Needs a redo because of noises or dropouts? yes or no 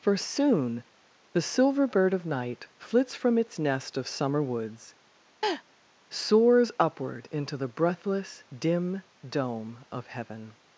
yes